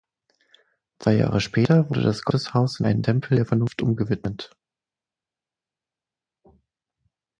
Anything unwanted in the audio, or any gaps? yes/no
no